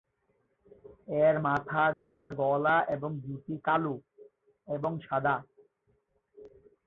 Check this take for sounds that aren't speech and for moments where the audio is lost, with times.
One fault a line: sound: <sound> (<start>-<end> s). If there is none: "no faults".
no faults